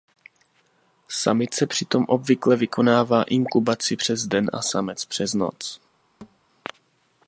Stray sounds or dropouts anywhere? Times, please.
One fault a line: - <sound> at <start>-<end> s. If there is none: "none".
- thud at 6.2-6.4 s